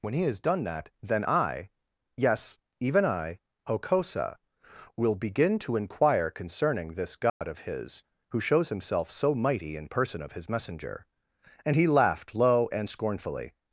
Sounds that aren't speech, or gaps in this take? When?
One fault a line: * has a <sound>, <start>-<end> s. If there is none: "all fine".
* has a dropout, 7.3-7.4 s